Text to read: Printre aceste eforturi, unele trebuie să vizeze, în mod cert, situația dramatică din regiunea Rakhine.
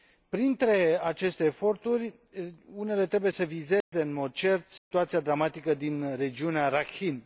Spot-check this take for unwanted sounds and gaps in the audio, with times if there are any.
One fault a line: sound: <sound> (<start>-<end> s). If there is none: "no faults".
sound: dropout (3.8-3.9 s)
sound: dropout (4.8-4.9 s)